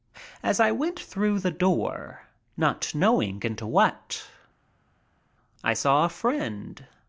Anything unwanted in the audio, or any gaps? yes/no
no